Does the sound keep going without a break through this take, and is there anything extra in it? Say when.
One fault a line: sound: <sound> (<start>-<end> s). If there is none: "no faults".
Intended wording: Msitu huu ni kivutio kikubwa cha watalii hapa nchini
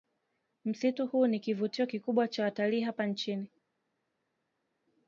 no faults